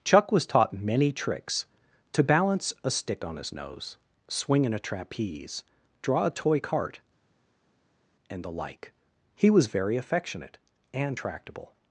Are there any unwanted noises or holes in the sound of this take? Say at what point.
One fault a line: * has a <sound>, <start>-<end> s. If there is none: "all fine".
all fine